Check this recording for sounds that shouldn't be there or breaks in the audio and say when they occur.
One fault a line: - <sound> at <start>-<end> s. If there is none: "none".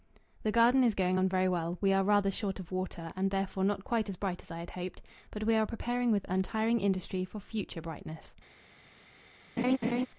- laugh at 9.6-10.1 s